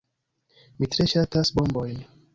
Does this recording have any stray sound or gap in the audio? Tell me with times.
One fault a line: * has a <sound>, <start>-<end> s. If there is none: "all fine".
all fine